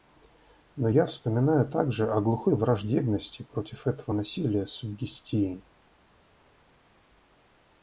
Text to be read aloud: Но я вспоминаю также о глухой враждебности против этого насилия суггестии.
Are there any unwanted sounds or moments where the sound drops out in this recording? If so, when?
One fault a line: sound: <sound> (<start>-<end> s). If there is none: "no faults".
no faults